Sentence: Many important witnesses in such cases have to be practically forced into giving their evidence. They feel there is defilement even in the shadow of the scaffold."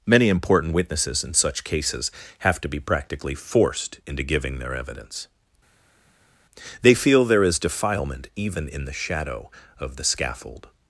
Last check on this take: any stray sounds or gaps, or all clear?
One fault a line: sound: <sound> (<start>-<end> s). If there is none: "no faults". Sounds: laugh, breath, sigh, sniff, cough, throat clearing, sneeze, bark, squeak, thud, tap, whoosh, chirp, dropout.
no faults